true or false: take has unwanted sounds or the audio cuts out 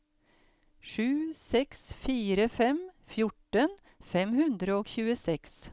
false